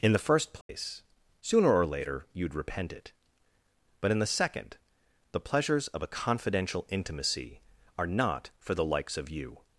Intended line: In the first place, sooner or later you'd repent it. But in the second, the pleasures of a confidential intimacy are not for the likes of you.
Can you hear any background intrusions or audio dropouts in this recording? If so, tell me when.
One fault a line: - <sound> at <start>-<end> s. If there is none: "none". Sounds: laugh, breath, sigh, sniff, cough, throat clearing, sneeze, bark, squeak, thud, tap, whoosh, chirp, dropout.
- dropout at 0.6-0.7 s